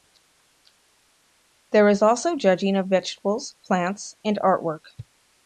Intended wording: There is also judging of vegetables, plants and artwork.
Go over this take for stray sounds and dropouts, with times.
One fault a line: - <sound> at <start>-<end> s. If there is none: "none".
none